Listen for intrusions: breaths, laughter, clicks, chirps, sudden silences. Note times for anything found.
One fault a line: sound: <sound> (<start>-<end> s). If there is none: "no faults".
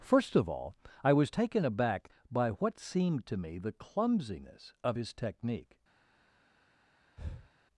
sound: breath (7.2-7.5 s)